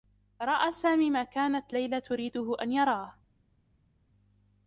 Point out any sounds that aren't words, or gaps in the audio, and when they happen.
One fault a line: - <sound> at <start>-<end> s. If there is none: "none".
none